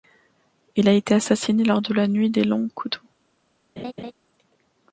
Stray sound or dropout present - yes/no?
yes